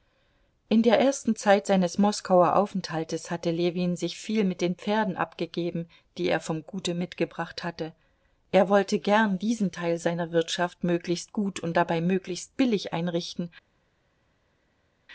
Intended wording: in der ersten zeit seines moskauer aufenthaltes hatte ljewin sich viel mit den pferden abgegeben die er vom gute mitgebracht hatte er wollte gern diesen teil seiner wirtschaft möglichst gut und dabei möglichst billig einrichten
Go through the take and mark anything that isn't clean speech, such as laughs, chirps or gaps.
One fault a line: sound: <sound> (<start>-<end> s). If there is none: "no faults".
no faults